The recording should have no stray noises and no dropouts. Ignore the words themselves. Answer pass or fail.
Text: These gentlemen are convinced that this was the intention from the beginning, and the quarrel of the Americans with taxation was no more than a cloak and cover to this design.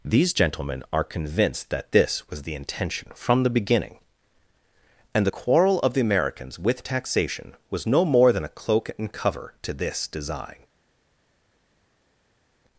pass